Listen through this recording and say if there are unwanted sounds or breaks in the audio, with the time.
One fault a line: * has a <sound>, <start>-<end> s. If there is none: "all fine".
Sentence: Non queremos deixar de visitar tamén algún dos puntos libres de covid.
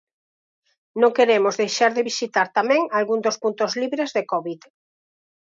all fine